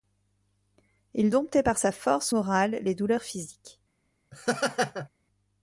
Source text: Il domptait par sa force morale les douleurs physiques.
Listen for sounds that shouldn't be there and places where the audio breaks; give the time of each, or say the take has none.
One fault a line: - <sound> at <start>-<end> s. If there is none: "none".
- laugh at 4.3-5.1 s